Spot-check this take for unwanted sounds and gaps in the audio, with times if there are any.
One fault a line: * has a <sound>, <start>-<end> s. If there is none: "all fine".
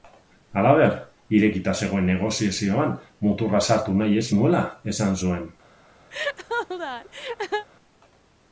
* has a laugh, 6.1-7.7 s